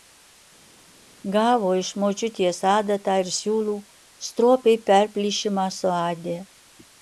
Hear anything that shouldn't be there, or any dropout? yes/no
no